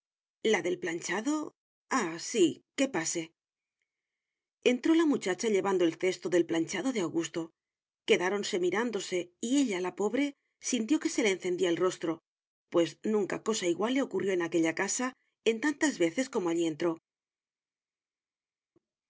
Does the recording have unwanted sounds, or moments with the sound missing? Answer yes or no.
no